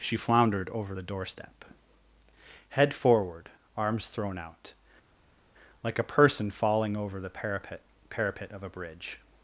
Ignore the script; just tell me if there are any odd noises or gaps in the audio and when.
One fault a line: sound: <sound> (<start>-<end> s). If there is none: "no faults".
no faults